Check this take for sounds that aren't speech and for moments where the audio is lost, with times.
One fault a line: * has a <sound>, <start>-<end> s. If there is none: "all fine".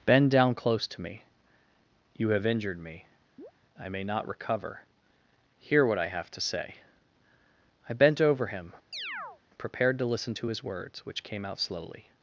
* has a chirp, 3.4-3.5 s
* has a chirp, 8.9-9.4 s